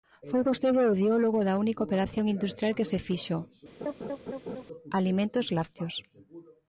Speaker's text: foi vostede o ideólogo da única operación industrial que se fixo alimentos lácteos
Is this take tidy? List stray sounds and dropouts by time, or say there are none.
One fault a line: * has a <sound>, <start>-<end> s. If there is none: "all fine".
* has a laugh, 3.8-4.6 s